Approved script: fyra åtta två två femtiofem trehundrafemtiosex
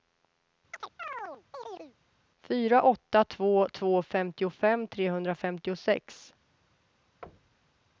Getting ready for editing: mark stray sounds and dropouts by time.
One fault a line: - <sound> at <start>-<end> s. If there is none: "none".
- chirp at 0.7-1.9 s
- thud at 7.2-7.8 s